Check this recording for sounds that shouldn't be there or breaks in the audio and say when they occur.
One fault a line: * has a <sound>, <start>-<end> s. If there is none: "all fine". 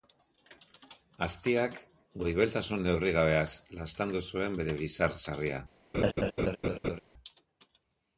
* has a laugh, 5.9-7.0 s